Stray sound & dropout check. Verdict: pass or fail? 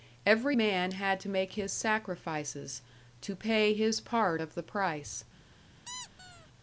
fail